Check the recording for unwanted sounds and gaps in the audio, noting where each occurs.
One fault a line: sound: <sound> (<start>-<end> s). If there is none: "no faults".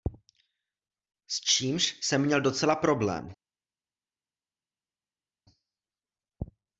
no faults